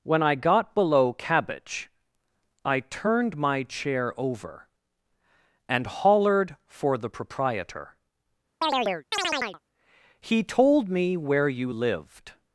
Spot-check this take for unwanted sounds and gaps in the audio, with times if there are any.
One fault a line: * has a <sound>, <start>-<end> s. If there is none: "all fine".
* has a chirp, 8.6-9.6 s